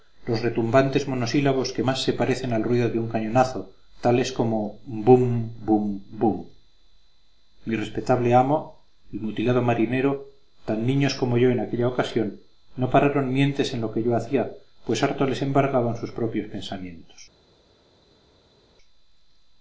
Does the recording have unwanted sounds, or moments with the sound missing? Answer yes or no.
no